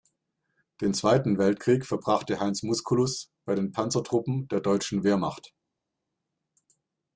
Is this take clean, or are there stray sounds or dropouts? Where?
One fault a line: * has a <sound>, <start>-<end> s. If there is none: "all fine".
all fine